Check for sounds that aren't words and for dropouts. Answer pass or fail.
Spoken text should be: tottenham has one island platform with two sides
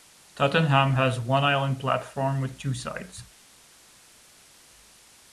pass